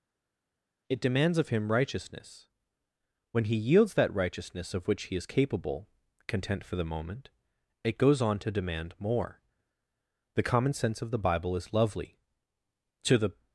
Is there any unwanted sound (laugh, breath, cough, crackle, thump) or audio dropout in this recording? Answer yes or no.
no